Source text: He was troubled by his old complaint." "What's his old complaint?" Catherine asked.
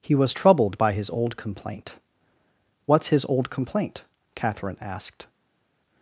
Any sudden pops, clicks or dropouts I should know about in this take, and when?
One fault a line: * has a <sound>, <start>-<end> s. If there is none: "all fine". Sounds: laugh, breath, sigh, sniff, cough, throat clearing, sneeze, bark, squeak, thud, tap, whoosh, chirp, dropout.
all fine